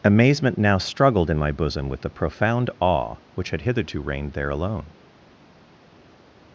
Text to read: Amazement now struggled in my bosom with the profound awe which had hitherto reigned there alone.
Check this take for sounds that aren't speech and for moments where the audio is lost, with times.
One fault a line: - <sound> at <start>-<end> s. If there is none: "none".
none